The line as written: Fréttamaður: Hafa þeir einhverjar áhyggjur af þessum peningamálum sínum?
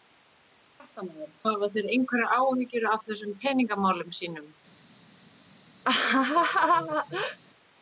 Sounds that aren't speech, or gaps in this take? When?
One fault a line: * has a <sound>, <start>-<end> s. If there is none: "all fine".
* has a laugh, 5.8-7.4 s